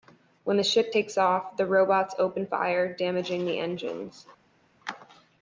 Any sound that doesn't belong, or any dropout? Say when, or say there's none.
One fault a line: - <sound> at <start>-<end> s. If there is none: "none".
none